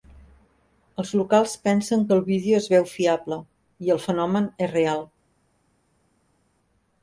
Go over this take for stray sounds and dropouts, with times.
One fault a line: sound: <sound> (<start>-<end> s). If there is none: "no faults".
no faults